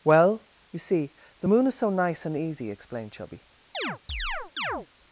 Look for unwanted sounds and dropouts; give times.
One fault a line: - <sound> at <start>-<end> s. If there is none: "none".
- chirp at 3.7-4.9 s